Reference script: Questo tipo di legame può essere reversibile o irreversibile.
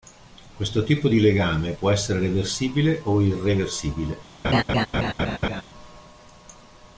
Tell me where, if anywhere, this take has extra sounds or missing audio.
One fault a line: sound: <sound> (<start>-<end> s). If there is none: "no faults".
sound: laugh (4.4-5.6 s)